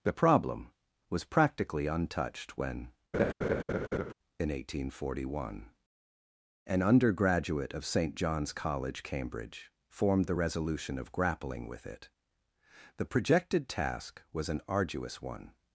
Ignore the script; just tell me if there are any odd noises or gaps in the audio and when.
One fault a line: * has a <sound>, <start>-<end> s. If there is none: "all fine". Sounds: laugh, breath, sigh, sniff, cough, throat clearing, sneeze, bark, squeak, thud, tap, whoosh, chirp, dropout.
* has a laugh, 3.1-4.1 s